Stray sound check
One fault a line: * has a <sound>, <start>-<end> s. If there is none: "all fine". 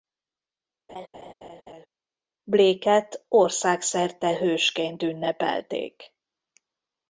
* has a laugh, 0.9-1.9 s